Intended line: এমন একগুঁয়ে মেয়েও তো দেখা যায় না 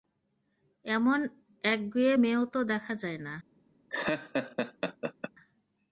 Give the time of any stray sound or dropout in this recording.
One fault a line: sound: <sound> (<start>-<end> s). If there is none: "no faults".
sound: laugh (3.9-5.3 s)